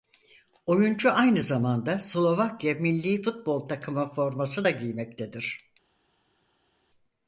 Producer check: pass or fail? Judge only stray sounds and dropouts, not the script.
pass